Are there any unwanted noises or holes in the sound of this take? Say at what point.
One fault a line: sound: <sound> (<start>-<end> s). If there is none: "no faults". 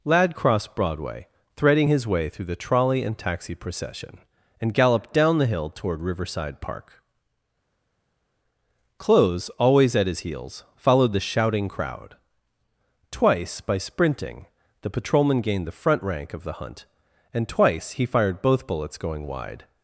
no faults